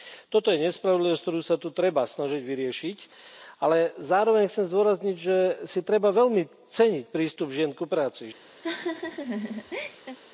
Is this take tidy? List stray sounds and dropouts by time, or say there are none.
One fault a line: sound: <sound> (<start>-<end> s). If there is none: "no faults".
sound: laugh (8.6-10.2 s)